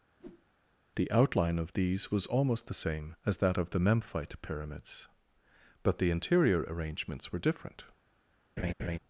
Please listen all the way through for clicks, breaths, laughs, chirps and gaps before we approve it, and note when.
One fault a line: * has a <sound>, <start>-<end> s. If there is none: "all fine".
* has a whoosh, 0.2-0.5 s
* has a laugh, 8.6-9.0 s